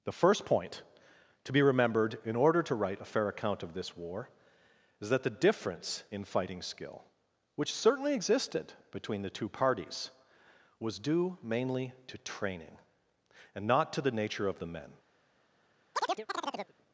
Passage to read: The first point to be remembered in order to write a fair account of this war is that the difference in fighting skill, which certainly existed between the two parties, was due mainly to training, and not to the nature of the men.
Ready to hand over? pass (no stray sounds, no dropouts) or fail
fail